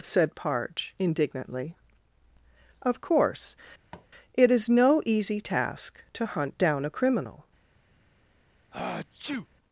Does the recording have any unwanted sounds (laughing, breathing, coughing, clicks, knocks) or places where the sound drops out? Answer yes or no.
yes